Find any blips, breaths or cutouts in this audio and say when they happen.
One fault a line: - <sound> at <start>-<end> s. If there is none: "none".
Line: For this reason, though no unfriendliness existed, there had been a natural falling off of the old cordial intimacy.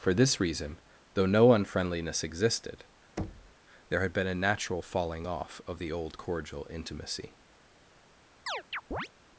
- thud at 3.2-3.5 s
- chirp at 8.5-9.1 s